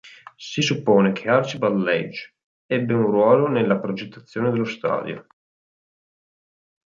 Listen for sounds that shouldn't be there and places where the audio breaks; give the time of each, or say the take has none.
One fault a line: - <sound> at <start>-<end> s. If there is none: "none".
none